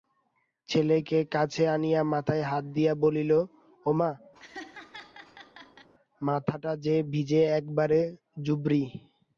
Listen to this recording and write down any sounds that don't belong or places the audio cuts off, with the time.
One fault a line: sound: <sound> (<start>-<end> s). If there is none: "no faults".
sound: laugh (4.3-5.9 s)